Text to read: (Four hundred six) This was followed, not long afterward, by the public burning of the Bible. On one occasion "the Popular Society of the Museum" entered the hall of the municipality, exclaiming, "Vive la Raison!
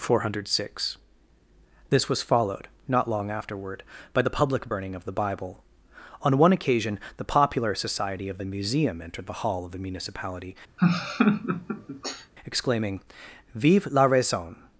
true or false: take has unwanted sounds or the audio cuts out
true